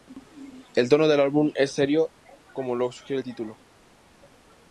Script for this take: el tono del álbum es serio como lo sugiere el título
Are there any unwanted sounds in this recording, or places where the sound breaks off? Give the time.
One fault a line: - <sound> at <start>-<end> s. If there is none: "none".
none